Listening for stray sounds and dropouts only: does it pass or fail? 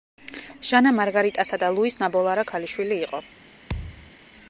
fail